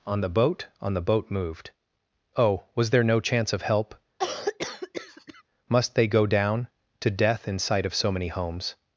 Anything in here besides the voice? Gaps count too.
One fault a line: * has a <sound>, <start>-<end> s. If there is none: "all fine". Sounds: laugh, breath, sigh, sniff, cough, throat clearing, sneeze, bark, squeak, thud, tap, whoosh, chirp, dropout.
* has a cough, 4.2-5.4 s